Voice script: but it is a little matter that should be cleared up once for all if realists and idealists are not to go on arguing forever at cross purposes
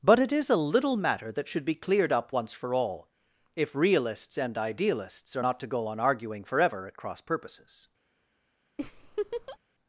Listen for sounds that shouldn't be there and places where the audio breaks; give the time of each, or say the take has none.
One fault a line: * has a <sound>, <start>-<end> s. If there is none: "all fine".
* has a laugh, 8.8-9.6 s